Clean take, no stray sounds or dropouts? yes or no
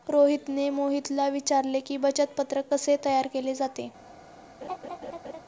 no